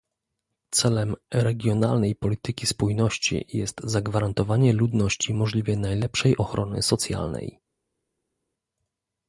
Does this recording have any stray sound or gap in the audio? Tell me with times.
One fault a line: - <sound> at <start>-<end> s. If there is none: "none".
none